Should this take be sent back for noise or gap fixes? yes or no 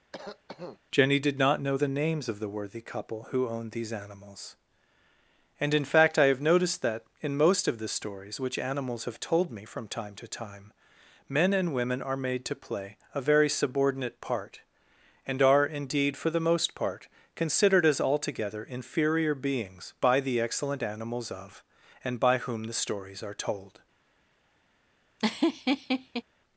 yes